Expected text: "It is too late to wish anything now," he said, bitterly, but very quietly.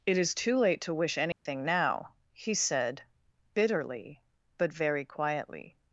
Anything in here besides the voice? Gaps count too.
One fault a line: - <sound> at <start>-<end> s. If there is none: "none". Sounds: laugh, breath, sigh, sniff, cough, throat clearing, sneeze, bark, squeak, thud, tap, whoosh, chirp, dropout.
- dropout at 1.3-1.5 s